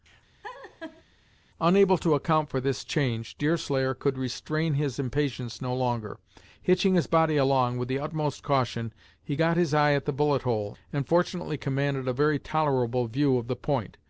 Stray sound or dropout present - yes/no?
yes